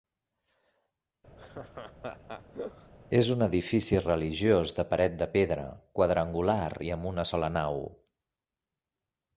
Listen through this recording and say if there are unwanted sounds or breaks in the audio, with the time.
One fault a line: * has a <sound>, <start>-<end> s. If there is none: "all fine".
* has a laugh, 1.4-2.9 s